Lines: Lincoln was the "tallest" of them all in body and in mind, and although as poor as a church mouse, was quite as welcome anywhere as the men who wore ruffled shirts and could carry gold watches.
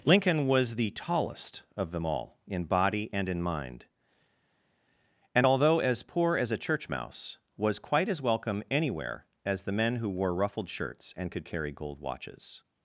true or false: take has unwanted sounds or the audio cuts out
false